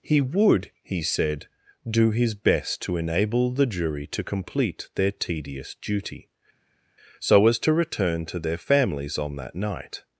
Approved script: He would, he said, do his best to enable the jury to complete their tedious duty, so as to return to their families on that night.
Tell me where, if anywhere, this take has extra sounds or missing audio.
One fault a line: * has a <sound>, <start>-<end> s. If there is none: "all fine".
all fine